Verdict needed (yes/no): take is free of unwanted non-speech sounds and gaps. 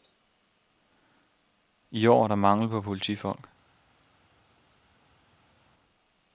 yes